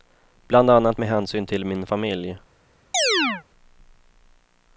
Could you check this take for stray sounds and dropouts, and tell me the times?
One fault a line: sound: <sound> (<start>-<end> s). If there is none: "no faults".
sound: chirp (2.9-3.4 s)